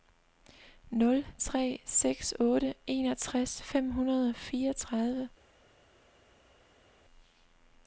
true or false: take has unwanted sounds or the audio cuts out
false